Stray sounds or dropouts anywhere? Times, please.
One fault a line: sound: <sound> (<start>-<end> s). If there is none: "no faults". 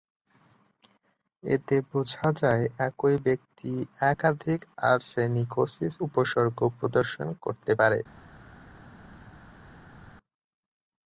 no faults